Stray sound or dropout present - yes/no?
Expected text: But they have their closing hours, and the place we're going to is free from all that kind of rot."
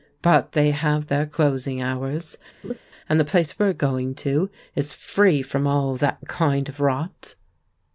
yes